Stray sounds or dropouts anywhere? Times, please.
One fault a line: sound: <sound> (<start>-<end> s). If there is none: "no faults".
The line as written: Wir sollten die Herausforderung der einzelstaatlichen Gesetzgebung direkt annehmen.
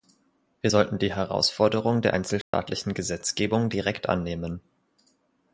sound: dropout (2.4-2.5 s)